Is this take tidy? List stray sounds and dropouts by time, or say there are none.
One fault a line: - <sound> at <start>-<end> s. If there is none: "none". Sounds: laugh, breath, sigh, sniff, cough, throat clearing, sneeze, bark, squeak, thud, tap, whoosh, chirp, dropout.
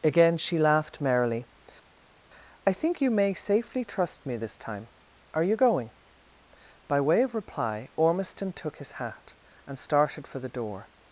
none